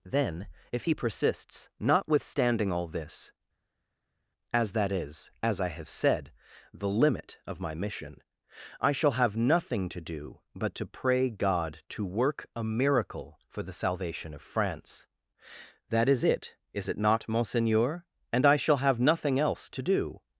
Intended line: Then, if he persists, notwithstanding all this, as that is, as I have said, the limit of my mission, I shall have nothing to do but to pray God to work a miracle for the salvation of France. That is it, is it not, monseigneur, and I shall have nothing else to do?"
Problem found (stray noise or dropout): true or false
false